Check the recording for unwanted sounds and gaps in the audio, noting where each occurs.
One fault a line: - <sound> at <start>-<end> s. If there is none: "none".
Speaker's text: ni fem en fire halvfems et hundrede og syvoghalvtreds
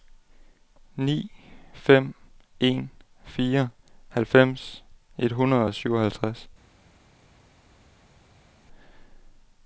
none